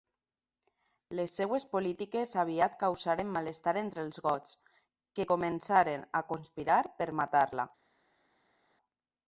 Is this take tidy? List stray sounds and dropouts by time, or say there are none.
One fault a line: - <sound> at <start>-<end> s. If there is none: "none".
none